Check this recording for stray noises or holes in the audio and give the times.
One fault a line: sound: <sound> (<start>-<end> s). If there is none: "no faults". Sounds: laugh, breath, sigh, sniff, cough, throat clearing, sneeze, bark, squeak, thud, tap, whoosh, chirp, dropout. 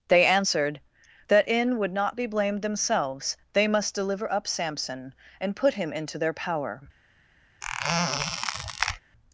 sound: squeak (7.6-9.0 s)